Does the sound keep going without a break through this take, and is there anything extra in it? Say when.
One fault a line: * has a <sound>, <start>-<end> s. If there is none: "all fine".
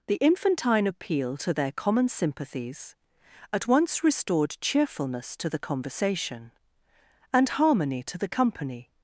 all fine